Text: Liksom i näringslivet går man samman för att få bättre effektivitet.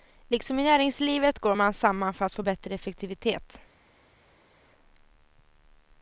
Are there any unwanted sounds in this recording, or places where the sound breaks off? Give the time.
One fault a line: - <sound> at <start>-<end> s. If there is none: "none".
none